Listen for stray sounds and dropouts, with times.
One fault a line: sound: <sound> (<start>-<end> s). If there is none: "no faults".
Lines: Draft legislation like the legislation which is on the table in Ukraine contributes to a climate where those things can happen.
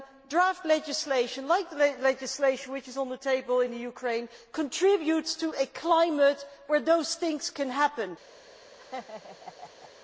sound: laugh (8.8-9.9 s)